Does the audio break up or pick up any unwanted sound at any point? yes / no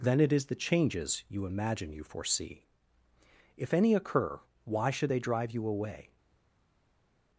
no